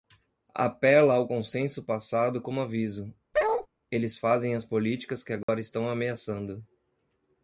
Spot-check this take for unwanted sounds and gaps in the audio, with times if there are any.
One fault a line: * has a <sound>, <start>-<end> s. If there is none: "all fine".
* has a bark, 3.3-3.7 s
* has a dropout, 5.4-5.5 s